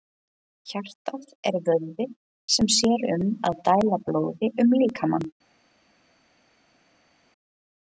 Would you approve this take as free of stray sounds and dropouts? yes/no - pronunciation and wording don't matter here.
yes